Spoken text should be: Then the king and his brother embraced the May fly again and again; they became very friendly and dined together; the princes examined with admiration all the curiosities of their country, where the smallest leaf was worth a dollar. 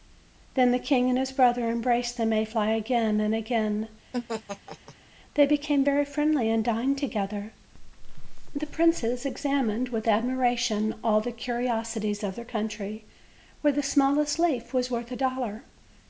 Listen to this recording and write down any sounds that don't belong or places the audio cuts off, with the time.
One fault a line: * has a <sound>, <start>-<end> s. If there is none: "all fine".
* has a laugh, 4.1-5.0 s